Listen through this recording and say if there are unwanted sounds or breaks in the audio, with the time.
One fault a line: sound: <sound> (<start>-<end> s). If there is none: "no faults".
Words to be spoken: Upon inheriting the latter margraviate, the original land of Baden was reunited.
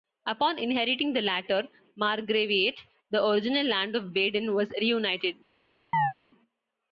sound: chirp (5.9-6.1 s)